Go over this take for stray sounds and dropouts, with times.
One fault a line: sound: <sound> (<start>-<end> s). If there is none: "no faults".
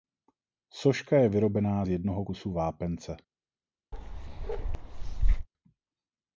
sound: bark (3.9-5.5 s)